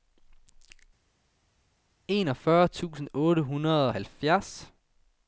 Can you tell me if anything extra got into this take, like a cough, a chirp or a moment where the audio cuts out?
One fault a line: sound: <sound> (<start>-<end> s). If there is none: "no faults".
no faults